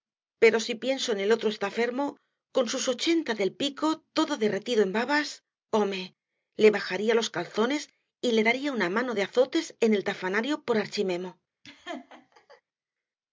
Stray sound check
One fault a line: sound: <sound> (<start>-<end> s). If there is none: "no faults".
sound: laugh (11.6-12.6 s)